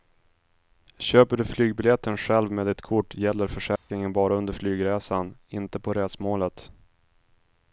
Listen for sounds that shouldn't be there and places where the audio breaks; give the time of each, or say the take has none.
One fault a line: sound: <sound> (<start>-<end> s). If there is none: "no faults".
sound: dropout (3.8-3.9 s)